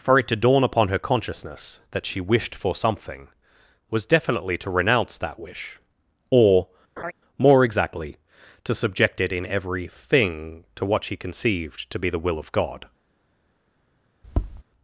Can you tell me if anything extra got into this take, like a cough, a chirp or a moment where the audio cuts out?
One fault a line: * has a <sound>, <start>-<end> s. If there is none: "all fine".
* has a laugh, 7.0-7.1 s
* has a tap, 14.2-14.6 s